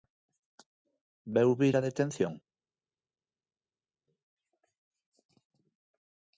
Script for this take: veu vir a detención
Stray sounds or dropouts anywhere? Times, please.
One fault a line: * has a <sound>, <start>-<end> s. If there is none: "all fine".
all fine